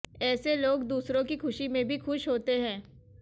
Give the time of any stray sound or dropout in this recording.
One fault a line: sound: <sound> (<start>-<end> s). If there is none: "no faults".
no faults